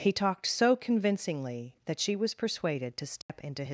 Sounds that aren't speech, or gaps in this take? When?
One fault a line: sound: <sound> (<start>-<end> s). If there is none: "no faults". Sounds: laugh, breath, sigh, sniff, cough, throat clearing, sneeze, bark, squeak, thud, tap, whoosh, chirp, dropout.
sound: dropout (3.2-3.3 s)